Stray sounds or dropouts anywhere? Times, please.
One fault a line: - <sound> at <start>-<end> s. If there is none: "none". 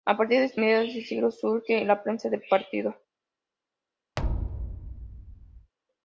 - thud at 4.2-5.7 s